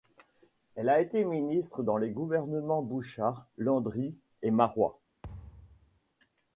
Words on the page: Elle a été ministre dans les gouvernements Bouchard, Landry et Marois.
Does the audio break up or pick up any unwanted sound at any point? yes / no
yes